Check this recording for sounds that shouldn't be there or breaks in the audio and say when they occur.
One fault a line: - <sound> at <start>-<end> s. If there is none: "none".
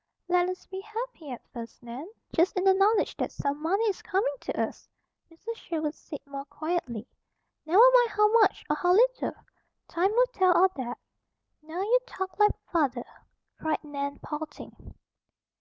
none